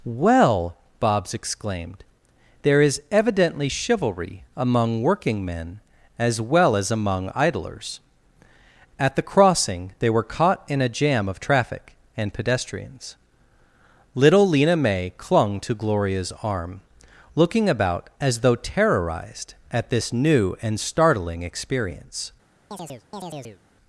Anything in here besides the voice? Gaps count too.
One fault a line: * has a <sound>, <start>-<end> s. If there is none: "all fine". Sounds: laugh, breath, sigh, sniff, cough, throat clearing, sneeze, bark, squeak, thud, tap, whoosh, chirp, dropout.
* has a chirp, 22.7-23.6 s